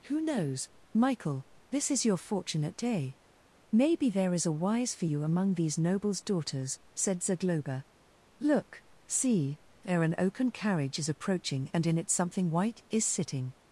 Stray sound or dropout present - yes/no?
no